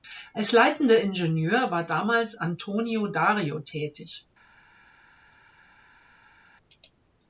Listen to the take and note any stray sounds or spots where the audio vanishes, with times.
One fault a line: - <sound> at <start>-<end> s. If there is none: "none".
none